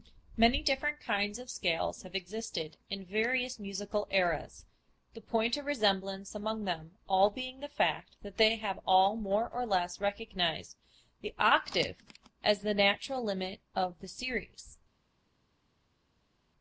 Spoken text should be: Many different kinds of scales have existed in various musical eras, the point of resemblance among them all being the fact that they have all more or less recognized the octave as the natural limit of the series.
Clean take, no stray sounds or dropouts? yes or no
yes